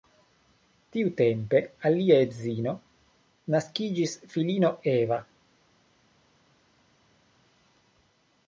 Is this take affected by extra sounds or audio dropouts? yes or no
no